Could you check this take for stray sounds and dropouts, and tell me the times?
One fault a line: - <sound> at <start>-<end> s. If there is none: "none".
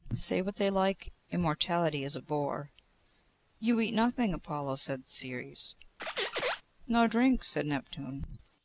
- squeak at 6.0-6.6 s